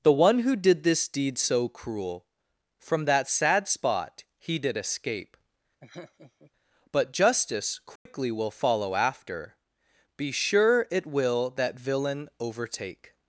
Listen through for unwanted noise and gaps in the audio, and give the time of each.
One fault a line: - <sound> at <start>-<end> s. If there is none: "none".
- laugh at 5.8-6.5 s
- dropout at 8.0-8.1 s